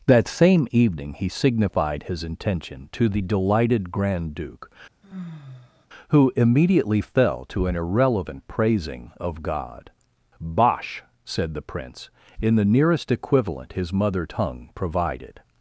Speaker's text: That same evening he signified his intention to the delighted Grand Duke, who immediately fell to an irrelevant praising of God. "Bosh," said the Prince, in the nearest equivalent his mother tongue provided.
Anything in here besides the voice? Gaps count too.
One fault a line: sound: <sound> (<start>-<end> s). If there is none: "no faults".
sound: sigh (5.0-5.9 s)